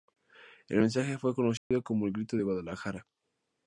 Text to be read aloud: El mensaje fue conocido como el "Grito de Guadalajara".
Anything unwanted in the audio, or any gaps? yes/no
yes